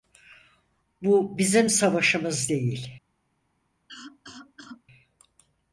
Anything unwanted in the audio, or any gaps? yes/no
yes